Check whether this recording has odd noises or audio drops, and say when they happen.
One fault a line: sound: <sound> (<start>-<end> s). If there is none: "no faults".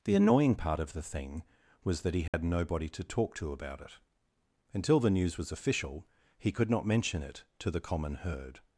sound: dropout (2.3-2.3 s)